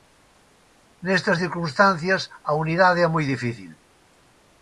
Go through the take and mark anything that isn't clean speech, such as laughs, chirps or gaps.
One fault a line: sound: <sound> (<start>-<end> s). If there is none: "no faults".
no faults